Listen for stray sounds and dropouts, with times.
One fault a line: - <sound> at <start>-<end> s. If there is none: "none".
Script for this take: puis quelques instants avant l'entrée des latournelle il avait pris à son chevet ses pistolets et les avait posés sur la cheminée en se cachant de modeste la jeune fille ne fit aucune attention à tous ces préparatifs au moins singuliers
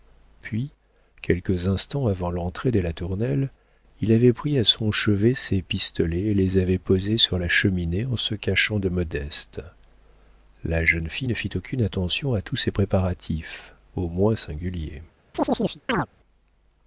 - chirp at 15.3-16.1 s